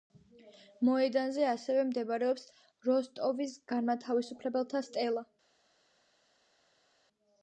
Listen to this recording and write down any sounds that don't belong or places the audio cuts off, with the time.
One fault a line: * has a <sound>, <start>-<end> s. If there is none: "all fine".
all fine